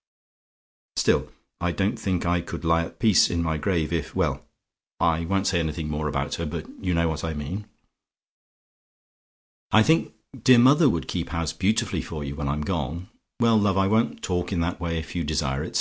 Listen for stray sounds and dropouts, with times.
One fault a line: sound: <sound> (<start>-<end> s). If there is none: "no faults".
no faults